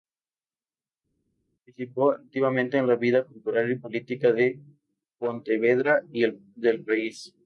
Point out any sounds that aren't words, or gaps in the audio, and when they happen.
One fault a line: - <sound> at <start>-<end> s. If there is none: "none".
none